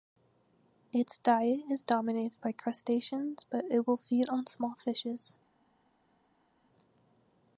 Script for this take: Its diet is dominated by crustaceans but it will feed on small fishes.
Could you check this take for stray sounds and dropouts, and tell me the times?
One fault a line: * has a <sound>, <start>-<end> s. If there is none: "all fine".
all fine